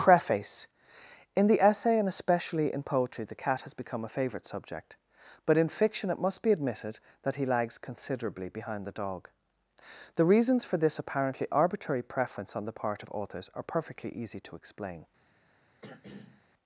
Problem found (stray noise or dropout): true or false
true